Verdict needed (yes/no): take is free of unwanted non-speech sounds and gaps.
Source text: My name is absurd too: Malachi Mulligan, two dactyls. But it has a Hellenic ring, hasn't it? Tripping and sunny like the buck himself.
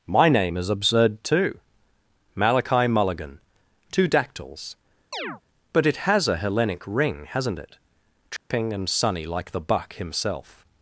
no